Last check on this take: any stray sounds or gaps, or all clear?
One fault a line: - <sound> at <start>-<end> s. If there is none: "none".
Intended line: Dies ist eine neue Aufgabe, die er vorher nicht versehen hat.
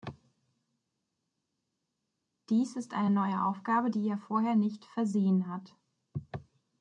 none